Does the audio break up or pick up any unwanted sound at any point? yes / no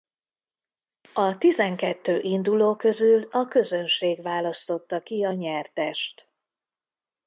no